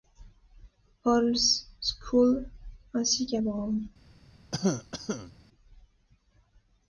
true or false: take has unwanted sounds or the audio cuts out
true